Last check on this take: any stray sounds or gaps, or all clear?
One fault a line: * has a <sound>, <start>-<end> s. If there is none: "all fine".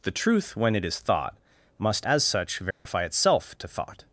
* has a dropout, 2.7-2.9 s